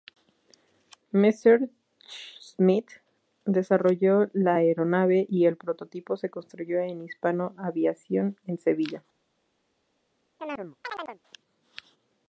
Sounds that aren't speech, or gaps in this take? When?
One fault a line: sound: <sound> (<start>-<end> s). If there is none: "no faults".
sound: chirp (10.4-11.2 s)